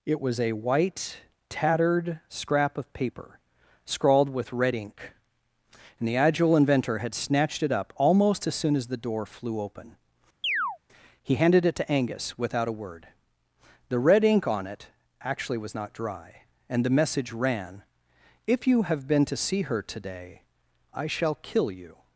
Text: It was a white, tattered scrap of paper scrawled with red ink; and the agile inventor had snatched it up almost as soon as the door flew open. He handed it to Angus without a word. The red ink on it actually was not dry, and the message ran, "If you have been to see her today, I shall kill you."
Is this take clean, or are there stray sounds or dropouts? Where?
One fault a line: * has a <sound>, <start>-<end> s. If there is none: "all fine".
* has a chirp, 10.4-10.8 s